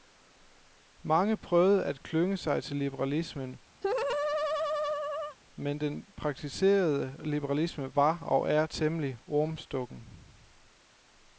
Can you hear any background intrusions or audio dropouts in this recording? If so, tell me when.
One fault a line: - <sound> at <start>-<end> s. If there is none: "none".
- laugh at 3.8-5.4 s